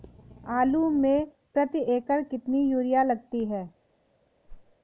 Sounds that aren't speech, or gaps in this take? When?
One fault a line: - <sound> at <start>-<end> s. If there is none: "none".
- whoosh at 4.5-4.8 s